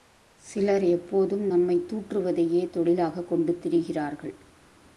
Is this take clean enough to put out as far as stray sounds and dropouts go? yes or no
yes